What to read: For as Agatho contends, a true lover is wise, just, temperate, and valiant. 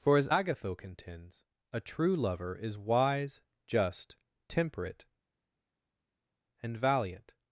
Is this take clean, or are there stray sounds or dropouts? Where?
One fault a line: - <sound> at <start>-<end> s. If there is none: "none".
none